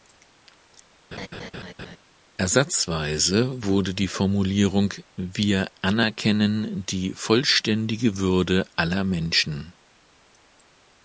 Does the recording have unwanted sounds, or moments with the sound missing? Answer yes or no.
yes